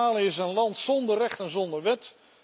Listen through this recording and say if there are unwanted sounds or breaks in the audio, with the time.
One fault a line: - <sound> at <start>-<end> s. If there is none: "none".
none